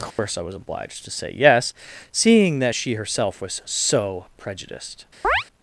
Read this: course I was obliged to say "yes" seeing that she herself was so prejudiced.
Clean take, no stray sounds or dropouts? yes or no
no